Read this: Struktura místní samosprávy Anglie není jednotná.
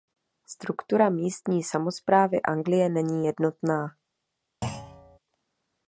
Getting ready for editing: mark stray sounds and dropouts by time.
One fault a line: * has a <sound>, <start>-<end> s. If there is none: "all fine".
* has a thud, 4.6-5.2 s